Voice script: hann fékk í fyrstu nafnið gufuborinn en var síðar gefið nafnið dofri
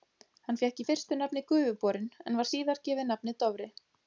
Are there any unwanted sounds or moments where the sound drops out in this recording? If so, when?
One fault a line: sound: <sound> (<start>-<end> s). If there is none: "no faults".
no faults